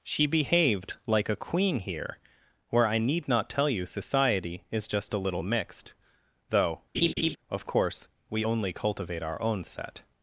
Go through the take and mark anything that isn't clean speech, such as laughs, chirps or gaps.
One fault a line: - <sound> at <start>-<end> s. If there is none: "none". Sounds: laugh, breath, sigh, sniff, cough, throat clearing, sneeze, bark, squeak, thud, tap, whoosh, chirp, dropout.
- laugh at 6.9-7.4 s